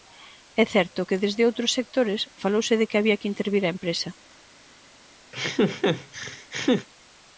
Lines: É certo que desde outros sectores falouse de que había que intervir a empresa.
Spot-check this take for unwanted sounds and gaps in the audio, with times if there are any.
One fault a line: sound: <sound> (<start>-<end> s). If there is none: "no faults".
sound: laugh (5.3-6.9 s)